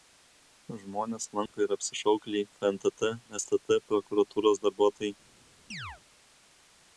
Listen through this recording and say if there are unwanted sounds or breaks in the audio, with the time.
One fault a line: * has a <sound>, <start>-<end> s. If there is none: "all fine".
* has a dropout, 1.5-1.5 s
* has a chirp, 5.7-6.0 s